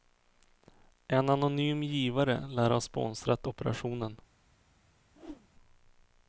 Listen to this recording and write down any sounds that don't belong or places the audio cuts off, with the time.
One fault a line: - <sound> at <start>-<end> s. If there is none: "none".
- whoosh at 5.1-5.5 s